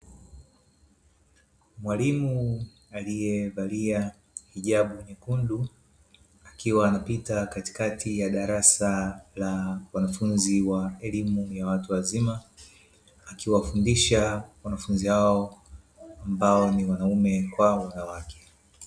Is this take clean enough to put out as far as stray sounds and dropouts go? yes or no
yes